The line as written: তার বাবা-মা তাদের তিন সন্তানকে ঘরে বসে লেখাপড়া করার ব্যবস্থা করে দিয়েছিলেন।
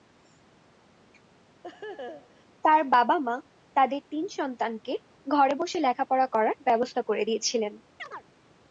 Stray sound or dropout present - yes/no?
yes